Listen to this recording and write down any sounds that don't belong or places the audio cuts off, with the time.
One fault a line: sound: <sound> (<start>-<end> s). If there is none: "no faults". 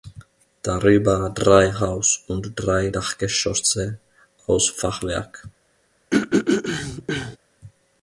sound: throat clearing (6.1-7.4 s)